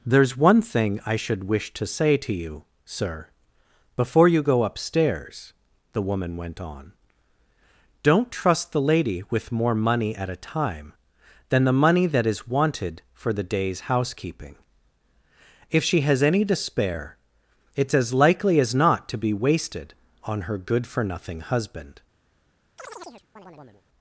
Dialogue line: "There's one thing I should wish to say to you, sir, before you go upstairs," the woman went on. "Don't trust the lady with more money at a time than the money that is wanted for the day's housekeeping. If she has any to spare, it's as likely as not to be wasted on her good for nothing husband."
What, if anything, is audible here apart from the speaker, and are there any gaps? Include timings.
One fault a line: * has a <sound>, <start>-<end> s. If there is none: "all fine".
* has a chirp, 22.8-23.8 s